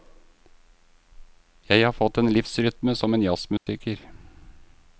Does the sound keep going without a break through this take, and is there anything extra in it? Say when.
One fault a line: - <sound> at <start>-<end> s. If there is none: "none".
- dropout at 3.6-3.7 s